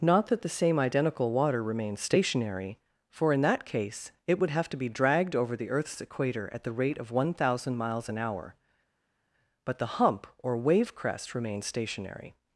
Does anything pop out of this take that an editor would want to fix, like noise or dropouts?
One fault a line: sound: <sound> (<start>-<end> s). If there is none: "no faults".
no faults